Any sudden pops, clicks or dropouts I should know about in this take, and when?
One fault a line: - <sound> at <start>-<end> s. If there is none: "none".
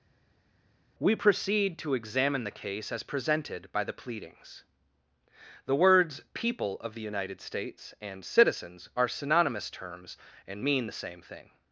none